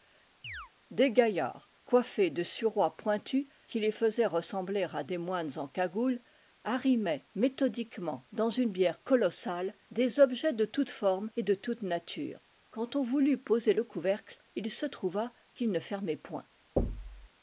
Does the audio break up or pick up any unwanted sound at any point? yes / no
yes